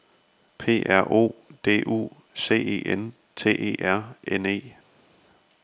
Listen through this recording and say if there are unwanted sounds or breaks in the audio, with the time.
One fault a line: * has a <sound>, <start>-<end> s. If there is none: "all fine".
all fine